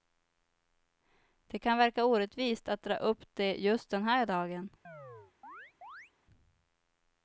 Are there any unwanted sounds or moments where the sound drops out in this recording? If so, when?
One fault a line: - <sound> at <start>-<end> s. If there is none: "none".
- chirp at 4.8-6.1 s